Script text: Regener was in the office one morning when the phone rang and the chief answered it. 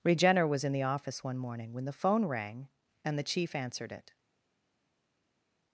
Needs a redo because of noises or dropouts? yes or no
no